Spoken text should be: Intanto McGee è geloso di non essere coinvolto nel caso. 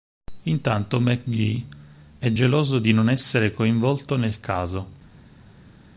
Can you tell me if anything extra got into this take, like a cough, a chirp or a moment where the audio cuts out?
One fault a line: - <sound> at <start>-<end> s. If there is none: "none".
none